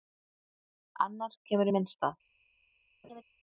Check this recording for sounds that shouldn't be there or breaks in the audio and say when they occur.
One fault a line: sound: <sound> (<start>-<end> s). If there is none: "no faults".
sound: laugh (3.0-3.2 s)